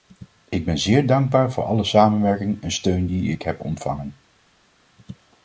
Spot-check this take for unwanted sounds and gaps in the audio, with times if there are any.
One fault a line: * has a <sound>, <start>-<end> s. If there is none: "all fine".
all fine